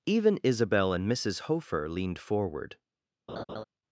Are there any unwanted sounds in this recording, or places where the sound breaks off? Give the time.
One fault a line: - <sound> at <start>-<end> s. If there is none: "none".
- laugh at 3.3-3.6 s